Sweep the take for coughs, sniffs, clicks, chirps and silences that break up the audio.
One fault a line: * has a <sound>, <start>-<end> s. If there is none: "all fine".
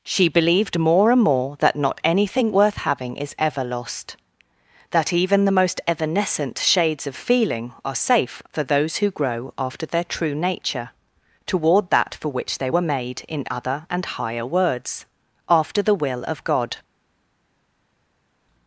all fine